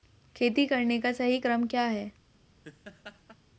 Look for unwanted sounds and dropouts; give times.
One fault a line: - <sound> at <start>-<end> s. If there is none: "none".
- laugh at 2.6-3.4 s